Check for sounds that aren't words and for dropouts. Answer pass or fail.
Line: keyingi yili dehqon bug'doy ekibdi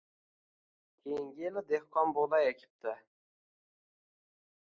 pass